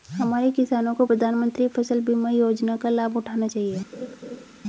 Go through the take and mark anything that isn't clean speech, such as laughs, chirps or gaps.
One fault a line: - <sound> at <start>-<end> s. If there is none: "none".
- laugh at 3.9-4.5 s